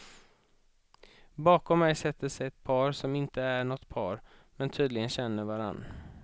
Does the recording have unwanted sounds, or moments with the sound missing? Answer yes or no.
no